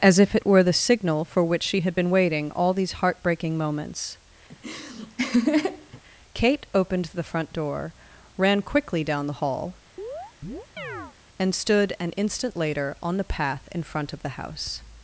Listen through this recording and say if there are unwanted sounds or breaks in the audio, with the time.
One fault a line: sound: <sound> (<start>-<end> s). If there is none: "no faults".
sound: laugh (4.5-6.0 s)
sound: chirp (10.0-11.2 s)